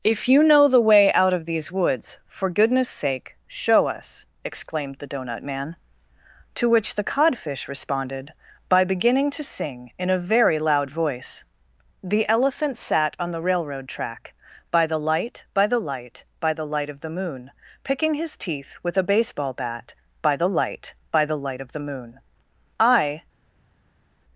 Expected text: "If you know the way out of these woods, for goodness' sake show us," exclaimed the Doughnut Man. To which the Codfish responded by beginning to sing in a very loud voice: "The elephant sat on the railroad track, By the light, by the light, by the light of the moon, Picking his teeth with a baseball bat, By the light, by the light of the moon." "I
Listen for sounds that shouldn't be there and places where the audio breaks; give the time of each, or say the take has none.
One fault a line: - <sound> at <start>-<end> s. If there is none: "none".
none